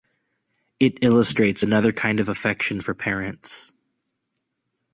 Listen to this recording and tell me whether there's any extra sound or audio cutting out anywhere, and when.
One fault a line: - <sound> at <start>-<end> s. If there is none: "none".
none